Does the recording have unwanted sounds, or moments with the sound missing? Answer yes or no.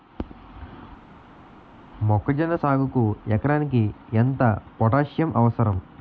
no